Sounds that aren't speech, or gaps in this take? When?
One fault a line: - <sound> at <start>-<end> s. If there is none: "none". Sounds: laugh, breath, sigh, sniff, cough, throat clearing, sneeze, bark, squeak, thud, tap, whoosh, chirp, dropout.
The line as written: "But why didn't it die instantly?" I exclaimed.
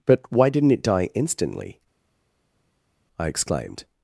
none